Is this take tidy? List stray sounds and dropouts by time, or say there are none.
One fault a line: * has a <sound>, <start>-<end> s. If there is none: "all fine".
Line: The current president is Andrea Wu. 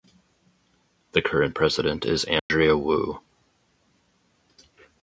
* has a dropout, 2.4-2.5 s